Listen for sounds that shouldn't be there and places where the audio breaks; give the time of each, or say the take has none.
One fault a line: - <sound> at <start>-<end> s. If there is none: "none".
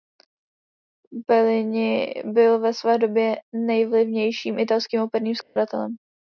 - dropout at 5.4-5.6 s